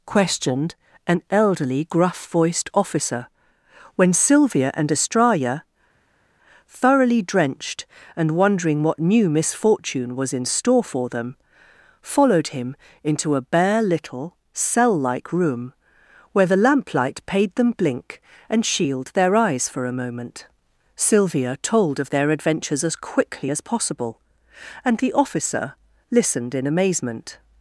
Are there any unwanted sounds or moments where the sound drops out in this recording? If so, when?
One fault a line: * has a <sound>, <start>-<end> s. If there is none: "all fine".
all fine